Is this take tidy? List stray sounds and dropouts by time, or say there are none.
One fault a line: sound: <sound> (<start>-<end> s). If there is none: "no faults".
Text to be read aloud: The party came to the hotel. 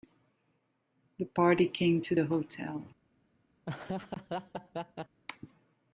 sound: laugh (3.6-5.2 s)